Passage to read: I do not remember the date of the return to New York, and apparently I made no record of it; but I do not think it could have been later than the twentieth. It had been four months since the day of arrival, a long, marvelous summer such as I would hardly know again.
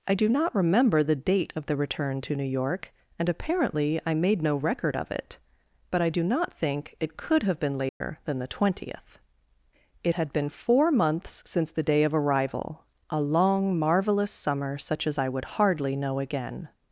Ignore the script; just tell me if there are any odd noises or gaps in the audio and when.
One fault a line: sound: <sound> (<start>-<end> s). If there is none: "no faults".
sound: dropout (7.9-8.0 s)